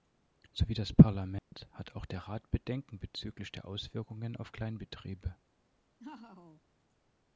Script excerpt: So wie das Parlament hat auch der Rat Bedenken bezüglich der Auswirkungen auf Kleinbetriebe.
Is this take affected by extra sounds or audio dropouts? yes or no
yes